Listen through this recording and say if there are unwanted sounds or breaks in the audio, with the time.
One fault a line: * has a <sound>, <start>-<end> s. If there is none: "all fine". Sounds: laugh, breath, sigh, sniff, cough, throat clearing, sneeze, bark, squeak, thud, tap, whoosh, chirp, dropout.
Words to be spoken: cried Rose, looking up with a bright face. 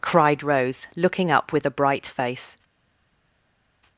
all fine